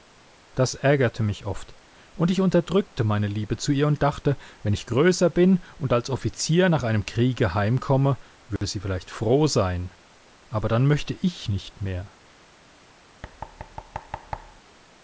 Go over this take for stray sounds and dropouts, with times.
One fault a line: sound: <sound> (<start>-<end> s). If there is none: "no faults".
sound: dropout (8.6-8.6 s)
sound: thud (13.2-14.6 s)